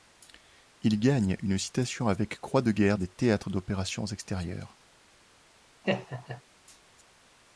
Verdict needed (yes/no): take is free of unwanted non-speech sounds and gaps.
no